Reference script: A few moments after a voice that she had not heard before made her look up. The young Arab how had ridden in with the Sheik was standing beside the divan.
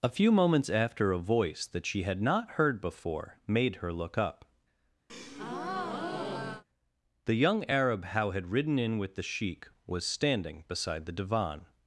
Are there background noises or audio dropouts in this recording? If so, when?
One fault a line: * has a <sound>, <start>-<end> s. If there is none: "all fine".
* has a breath, 5.1-6.6 s